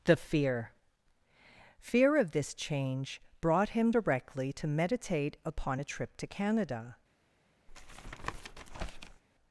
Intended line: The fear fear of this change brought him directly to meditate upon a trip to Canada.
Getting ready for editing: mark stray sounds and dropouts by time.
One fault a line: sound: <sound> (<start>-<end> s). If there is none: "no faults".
sound: tap (7.7-9.2 s)